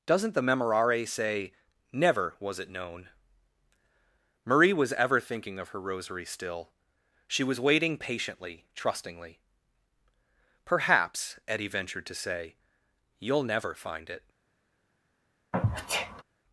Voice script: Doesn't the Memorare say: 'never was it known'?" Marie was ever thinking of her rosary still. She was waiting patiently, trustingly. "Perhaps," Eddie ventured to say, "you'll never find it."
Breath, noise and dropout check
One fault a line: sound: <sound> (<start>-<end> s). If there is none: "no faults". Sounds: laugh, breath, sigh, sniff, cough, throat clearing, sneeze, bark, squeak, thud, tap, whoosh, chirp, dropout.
sound: sneeze (15.5-16.2 s)